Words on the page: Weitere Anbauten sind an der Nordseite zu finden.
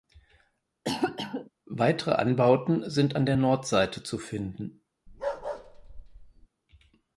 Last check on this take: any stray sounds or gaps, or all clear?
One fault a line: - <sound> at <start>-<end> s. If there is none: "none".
- cough at 0.8-1.5 s
- bark at 5.1-6.5 s